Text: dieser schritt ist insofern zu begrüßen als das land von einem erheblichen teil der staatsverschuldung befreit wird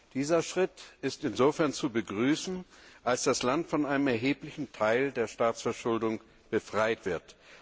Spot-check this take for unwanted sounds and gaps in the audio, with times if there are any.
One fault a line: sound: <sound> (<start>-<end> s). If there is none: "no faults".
no faults